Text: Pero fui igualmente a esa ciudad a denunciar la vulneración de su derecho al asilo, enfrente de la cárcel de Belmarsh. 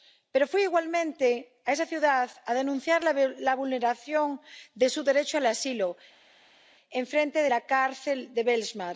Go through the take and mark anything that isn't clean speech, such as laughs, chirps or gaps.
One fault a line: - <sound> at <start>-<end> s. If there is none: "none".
none